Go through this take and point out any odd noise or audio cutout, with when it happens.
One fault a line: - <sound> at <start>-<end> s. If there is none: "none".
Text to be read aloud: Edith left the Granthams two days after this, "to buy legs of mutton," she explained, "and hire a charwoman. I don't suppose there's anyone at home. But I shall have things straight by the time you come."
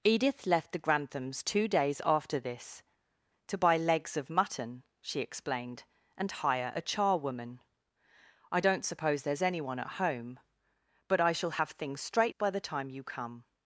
none